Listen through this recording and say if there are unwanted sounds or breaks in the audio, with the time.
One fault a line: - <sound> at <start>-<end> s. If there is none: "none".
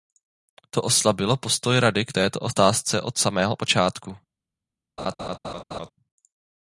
- laugh at 5.0-5.9 s